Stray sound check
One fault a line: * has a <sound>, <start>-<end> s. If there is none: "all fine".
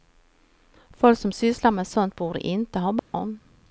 * has a dropout, 3.0-3.1 s